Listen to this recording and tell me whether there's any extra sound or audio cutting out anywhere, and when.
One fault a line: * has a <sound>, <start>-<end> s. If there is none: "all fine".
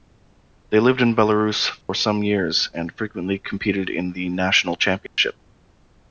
* has a dropout, 1.8-1.9 s
* has a dropout, 5.1-5.2 s